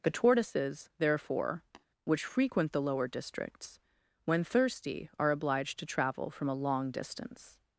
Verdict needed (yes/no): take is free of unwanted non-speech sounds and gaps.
no